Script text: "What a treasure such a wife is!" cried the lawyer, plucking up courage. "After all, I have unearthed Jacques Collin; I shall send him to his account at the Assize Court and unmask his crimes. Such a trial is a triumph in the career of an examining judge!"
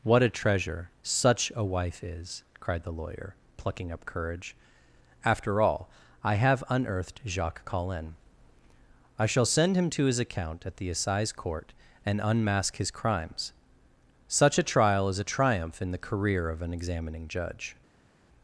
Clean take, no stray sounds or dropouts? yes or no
yes